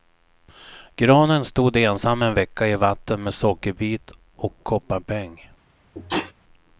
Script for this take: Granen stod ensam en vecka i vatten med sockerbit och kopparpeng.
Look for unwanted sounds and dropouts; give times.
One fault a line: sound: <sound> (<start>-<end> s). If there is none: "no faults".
sound: sneeze (6.0-6.3 s)